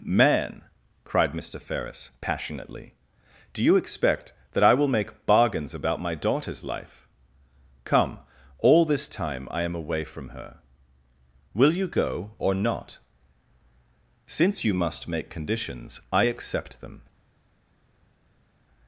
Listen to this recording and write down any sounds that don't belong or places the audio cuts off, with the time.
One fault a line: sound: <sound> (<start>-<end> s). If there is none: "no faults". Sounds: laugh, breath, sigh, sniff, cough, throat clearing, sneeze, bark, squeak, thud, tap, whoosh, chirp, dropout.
no faults